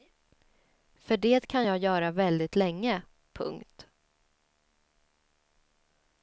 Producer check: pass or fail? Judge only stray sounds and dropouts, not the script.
pass